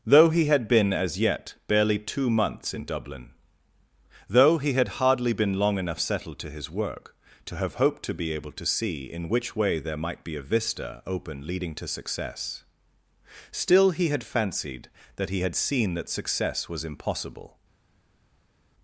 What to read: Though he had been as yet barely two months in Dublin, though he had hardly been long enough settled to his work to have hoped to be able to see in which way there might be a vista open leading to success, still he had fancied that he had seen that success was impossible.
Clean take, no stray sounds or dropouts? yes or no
yes